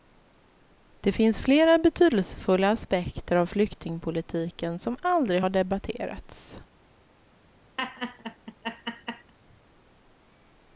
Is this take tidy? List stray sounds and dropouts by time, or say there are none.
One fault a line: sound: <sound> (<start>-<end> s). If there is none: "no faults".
sound: laugh (7.8-9.3 s)